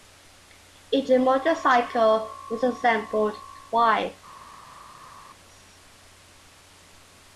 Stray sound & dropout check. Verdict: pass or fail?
pass